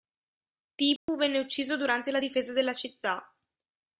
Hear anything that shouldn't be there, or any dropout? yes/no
yes